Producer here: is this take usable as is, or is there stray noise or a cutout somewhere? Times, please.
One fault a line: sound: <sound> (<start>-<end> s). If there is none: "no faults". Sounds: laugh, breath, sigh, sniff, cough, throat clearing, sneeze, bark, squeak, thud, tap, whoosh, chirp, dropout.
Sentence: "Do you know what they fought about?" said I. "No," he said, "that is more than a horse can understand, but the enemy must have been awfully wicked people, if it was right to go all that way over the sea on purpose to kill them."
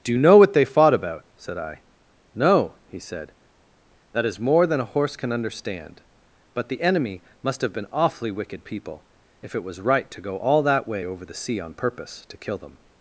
no faults